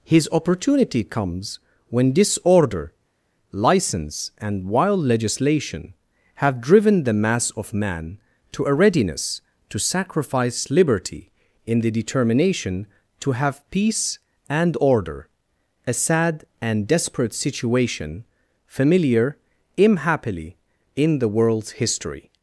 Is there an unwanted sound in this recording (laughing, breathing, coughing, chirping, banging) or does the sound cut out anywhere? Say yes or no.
no